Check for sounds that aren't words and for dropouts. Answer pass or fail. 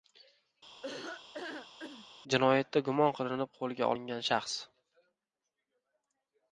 fail